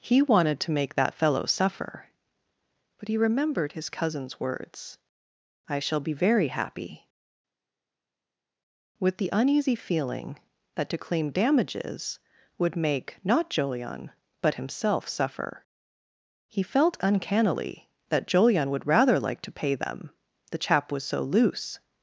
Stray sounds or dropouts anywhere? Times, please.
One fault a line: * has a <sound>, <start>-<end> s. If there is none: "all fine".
all fine